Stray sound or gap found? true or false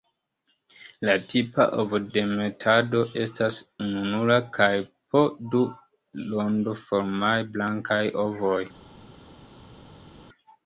false